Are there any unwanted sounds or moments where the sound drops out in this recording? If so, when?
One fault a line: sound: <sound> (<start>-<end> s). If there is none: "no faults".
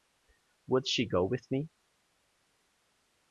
no faults